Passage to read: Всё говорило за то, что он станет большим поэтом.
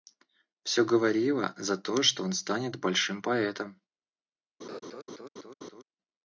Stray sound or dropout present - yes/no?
yes